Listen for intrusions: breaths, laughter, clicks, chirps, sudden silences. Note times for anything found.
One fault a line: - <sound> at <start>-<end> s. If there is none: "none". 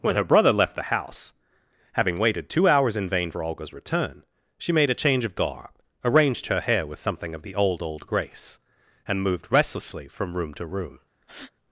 - breath at 11.2-11.5 s